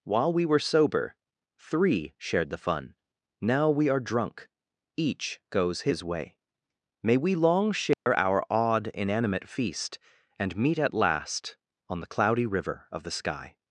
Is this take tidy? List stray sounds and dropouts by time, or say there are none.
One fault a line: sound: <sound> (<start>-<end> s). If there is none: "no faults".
sound: dropout (7.9-8.1 s)